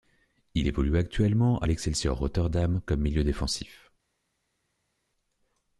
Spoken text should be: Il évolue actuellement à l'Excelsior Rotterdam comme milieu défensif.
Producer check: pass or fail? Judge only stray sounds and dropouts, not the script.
pass